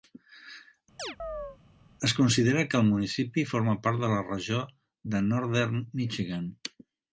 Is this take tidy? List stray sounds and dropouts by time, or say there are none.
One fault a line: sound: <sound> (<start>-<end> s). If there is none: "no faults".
sound: chirp (1.0-1.6 s)